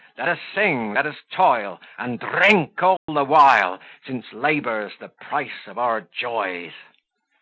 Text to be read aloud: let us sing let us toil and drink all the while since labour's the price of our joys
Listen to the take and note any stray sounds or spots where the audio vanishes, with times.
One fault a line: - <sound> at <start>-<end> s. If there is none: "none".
- dropout at 3.0-3.1 s